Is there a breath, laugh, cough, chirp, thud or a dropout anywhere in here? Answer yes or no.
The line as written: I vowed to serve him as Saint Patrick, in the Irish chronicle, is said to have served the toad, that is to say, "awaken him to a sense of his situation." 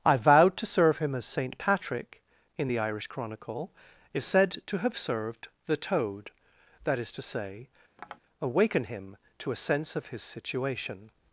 yes